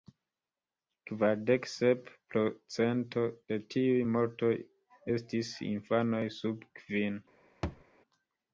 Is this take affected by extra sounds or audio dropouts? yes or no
yes